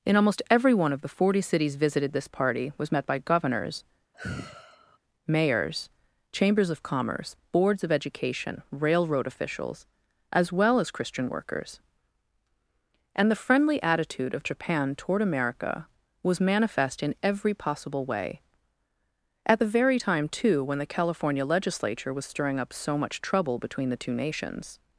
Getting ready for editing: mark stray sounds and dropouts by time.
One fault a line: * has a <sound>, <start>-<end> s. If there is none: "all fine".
* has a sigh, 4.1-5.0 s